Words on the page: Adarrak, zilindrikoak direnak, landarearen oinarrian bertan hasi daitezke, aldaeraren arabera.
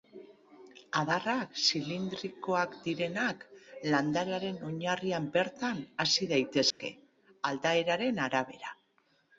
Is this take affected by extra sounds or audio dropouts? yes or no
yes